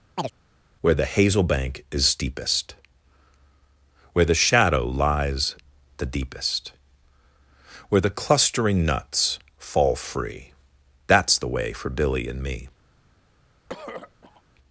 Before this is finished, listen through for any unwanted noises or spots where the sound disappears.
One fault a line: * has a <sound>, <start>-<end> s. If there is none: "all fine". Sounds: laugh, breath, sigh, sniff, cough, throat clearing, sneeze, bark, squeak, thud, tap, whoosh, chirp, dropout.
* has a chirp, 0.2-0.3 s
* has a throat clearing, 13.7-14.4 s